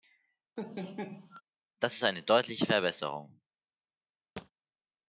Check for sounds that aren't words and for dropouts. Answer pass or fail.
fail